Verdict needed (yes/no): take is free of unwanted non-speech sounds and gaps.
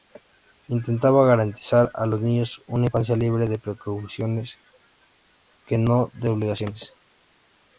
yes